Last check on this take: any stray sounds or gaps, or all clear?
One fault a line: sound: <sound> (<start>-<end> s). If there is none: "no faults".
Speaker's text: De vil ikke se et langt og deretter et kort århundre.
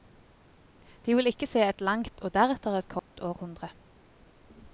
sound: dropout (3.0-3.1 s)